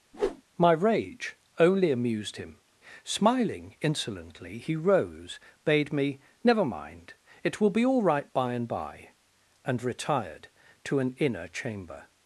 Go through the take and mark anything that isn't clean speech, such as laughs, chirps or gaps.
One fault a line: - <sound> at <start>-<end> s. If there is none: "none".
- whoosh at 0.1-0.4 s